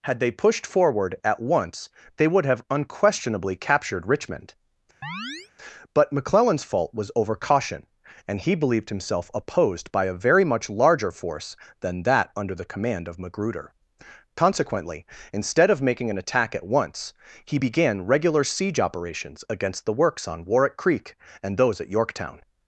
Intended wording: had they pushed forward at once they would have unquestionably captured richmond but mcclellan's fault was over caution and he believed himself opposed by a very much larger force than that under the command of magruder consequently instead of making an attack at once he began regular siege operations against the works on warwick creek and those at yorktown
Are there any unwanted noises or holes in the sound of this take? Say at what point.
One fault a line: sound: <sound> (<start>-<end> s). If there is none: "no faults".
sound: chirp (5.0-5.5 s)